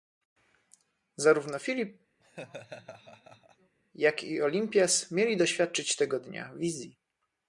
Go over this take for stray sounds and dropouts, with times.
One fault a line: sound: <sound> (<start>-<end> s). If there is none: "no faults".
sound: laugh (2.2-3.8 s)